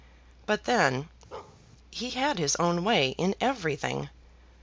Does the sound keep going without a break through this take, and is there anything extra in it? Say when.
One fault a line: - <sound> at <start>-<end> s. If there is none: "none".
- bark at 1.3-1.6 s